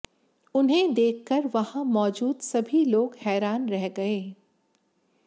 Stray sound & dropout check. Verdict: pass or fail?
pass